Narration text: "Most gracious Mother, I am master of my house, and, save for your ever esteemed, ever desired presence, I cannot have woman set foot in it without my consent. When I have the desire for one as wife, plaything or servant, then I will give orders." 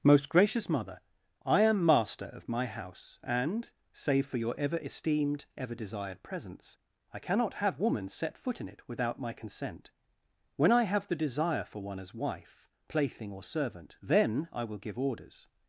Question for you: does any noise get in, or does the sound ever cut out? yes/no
no